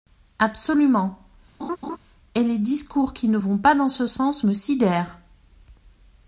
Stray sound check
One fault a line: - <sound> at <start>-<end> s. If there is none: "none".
- laugh at 1.6-2.0 s